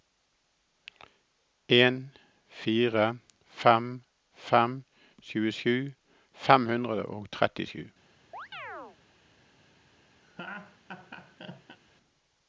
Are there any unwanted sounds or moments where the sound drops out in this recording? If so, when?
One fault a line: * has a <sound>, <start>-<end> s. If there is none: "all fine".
* has a chirp, 8.3-9.0 s
* has a laugh, 10.2-11.8 s